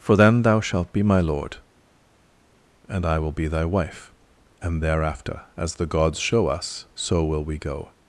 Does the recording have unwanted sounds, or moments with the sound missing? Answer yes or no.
no